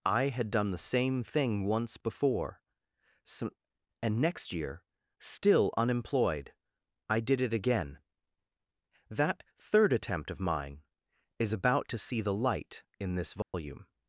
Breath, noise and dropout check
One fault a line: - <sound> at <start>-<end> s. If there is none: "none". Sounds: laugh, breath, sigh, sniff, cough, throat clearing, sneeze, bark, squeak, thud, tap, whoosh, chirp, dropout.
- dropout at 13.4-13.5 s